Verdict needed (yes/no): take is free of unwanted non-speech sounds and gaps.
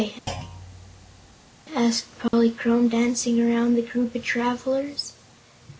no